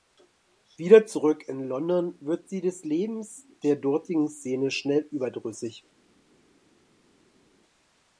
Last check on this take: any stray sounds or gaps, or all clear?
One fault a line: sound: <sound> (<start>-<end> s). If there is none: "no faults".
no faults